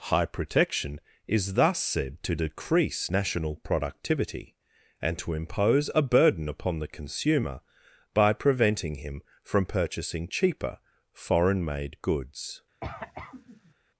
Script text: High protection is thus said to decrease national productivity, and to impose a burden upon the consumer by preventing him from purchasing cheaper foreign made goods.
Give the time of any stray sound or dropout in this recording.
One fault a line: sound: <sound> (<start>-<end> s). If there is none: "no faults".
sound: cough (12.8-13.7 s)